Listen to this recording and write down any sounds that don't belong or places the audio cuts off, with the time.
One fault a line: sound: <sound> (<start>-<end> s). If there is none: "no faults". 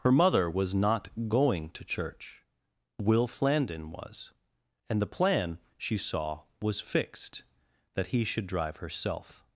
no faults